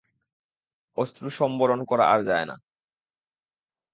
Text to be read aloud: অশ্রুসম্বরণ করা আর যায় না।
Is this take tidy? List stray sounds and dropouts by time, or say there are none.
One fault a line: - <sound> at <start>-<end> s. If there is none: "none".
none